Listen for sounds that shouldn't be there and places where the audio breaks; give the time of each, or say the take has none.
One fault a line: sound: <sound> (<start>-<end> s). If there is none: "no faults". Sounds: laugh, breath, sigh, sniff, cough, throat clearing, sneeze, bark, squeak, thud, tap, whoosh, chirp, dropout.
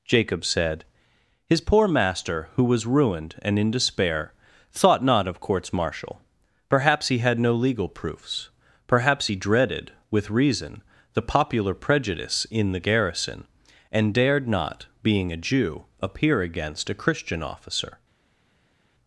no faults